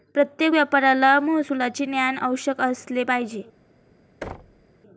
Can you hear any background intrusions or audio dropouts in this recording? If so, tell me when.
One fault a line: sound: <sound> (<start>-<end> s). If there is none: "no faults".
sound: thud (4.2-4.7 s)